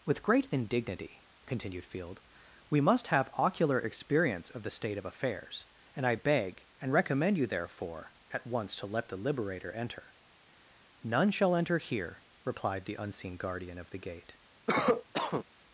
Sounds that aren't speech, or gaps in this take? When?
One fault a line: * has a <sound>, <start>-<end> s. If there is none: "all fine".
* has a cough, 14.7-15.4 s